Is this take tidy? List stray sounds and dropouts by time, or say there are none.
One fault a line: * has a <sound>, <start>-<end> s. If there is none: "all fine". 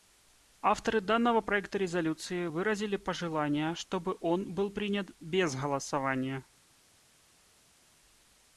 all fine